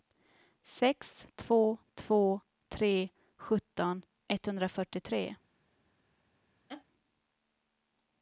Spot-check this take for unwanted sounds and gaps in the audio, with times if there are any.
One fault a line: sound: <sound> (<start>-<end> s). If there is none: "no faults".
sound: laugh (6.7-6.8 s)